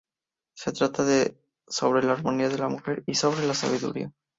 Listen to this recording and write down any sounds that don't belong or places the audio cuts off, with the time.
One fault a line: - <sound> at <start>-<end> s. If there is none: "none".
none